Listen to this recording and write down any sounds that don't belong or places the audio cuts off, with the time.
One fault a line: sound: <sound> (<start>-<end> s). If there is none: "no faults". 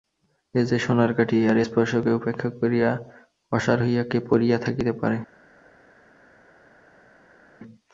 no faults